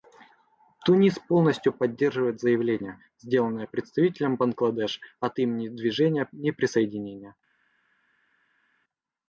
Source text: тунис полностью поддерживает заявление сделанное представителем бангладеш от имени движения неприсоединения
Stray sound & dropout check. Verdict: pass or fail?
pass